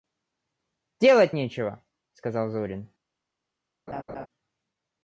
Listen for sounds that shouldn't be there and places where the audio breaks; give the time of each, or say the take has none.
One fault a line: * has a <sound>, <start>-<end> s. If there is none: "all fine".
* has a laugh, 3.9-4.3 s